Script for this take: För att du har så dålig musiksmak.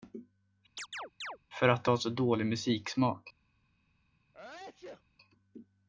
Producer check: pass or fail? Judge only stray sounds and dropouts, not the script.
fail